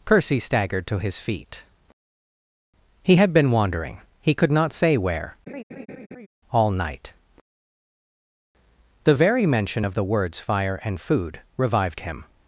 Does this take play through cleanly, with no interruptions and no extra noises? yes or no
no